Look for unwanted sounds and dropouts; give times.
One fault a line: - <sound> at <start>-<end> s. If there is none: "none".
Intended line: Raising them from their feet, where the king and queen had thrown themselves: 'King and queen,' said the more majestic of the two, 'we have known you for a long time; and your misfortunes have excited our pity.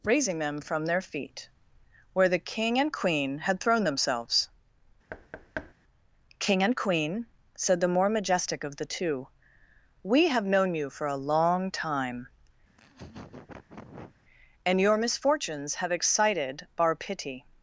- thud at 5.1-5.7 s
- laugh at 12.7-14.2 s